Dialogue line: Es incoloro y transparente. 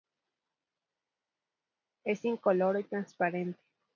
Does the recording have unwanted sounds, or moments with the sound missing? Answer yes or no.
no